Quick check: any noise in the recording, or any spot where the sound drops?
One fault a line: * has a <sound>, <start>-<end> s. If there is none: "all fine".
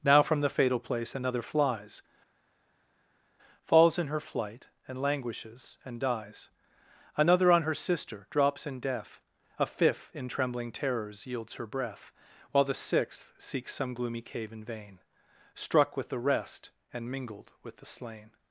all fine